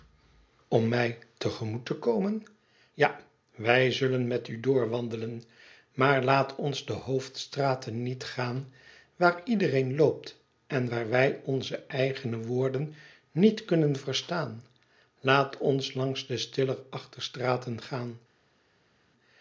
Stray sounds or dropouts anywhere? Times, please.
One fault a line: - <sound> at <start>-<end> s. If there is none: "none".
none